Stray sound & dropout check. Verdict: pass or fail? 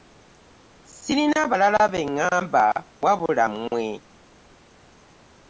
pass